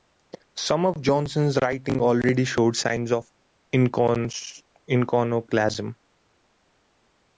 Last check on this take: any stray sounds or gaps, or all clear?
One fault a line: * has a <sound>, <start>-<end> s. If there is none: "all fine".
all fine